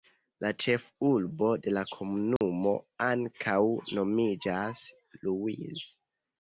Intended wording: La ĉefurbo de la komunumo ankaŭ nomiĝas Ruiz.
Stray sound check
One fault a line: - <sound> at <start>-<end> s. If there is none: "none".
- dropout at 2.4-2.4 s